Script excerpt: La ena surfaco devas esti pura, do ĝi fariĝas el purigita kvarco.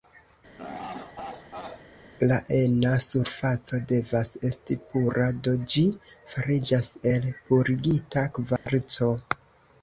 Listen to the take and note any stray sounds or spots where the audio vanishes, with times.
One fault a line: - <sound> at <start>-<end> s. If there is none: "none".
- laugh at 0.6-1.9 s
- dropout at 8.6-8.7 s